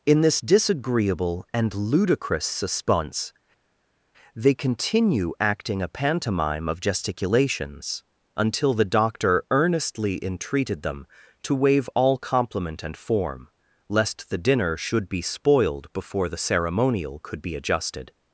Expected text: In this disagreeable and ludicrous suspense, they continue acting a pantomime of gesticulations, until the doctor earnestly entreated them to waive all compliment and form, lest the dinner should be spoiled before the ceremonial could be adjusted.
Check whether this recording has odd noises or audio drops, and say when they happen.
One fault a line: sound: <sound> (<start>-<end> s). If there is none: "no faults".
no faults